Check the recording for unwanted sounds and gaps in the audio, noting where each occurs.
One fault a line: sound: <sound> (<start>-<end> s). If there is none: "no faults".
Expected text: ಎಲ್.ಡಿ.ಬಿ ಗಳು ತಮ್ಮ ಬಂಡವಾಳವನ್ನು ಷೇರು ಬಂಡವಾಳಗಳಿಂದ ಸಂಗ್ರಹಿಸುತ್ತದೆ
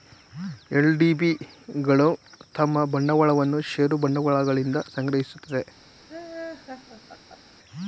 sound: laugh (6.1-7.6 s)